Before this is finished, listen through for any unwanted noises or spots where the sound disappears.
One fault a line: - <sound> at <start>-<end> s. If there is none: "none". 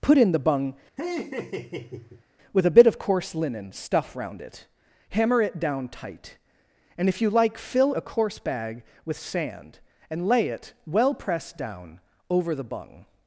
- laugh at 1.0-2.2 s